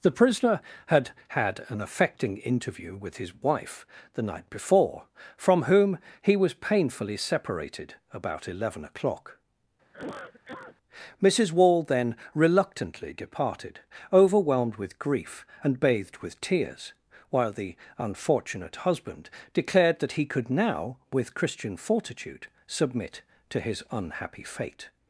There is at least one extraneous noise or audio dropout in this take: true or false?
true